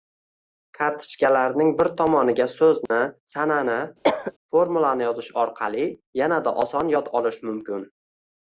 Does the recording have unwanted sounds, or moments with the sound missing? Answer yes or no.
yes